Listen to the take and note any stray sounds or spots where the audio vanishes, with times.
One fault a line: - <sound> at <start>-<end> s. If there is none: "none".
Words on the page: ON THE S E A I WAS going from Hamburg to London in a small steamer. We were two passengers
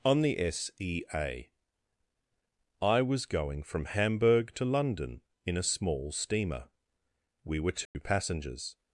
- dropout at 7.9-7.9 s